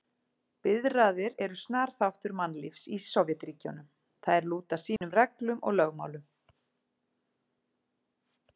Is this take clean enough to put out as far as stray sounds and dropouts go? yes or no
no